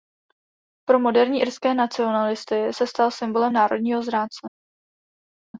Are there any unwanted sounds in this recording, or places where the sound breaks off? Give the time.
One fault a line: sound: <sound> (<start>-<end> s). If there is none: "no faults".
no faults